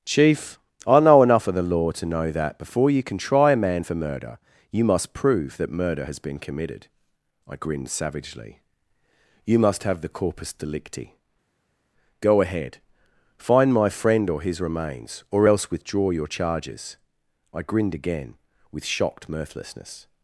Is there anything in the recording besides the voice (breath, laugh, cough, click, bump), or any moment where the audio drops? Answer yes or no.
no